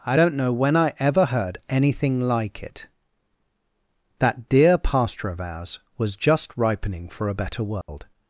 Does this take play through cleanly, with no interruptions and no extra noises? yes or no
no